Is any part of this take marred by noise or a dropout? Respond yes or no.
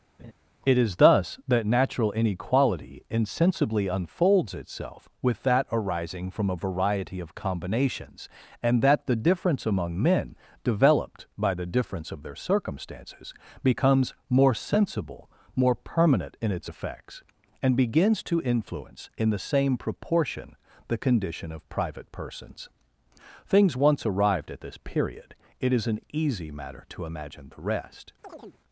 yes